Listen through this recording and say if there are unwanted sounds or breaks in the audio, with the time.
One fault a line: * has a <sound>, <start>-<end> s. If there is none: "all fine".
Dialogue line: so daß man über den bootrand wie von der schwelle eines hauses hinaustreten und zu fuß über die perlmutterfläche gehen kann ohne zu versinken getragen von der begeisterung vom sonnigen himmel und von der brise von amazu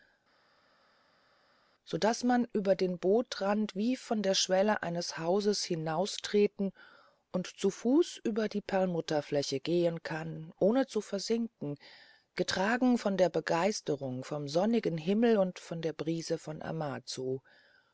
all fine